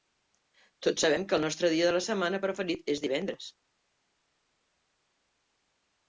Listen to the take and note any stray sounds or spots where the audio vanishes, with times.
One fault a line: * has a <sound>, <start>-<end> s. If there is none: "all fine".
all fine